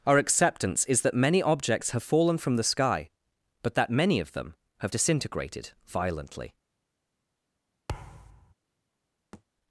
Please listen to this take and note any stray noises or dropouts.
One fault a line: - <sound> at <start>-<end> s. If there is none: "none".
- thud at 7.9-8.5 s
- thud at 9.3-9.4 s